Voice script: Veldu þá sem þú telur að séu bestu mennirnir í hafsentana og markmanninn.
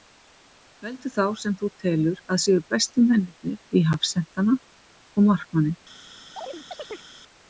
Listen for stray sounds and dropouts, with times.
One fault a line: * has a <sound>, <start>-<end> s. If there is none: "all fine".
* has a chirp, 6.4-7.1 s